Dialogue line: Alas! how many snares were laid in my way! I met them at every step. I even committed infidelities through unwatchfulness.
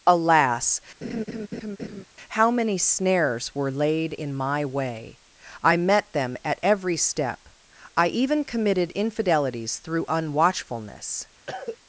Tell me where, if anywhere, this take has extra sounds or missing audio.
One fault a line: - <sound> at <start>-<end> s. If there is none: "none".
- laugh at 1.0-2.0 s
- cough at 11.5-11.8 s